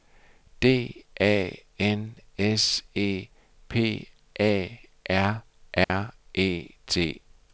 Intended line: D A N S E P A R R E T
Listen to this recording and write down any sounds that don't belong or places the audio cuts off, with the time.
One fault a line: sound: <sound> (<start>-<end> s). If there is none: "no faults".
sound: dropout (5.8-5.9 s)